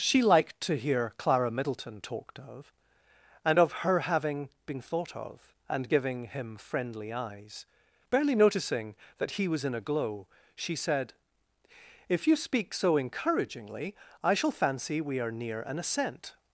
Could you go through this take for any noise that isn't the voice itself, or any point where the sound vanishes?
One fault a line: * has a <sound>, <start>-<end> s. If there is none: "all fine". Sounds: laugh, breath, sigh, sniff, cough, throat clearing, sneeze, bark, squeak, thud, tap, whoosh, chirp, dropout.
all fine